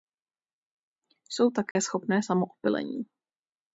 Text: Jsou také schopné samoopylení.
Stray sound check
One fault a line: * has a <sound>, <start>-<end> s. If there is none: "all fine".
* has a dropout, 1.7-1.8 s